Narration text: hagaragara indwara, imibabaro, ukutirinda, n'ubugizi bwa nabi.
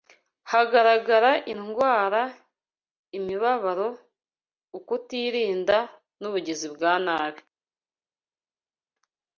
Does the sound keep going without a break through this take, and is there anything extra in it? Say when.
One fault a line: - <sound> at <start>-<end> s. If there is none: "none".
none